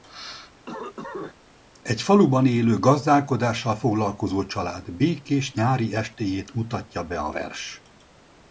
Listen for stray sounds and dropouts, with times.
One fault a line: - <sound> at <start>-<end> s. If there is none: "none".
- cough at 0.7-1.3 s